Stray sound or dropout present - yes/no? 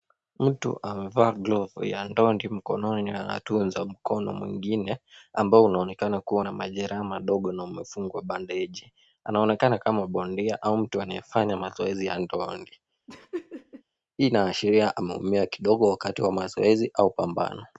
yes